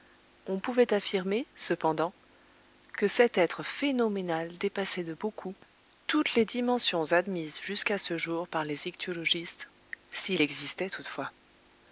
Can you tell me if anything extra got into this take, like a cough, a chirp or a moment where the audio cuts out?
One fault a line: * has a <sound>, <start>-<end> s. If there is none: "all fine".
all fine